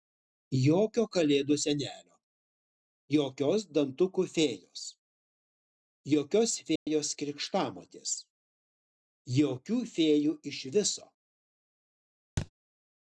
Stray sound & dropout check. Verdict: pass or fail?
fail